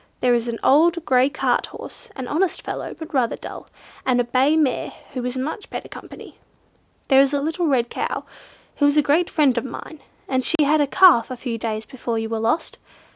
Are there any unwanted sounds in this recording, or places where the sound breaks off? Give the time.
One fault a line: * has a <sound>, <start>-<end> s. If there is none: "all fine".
* has a dropout, 10.6-10.6 s